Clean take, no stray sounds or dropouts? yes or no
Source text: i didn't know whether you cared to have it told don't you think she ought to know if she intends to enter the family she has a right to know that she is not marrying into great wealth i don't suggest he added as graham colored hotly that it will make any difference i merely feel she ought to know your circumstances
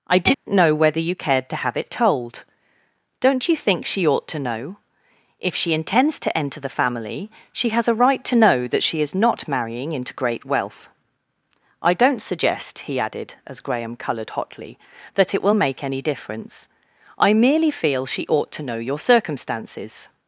no